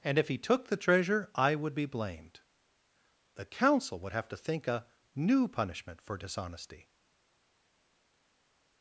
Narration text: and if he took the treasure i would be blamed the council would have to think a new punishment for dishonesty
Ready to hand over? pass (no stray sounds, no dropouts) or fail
pass